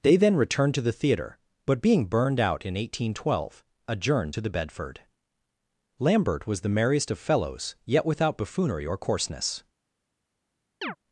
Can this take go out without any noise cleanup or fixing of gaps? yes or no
no